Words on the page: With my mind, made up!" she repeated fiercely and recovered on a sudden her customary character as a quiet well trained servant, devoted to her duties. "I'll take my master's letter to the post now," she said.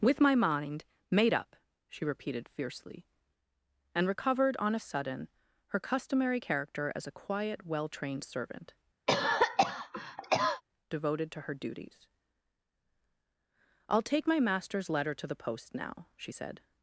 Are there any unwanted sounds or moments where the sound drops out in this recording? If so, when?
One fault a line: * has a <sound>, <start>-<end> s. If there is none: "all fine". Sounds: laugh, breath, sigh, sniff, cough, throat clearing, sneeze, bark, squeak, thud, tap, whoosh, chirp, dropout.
* has a cough, 9.1-10.6 s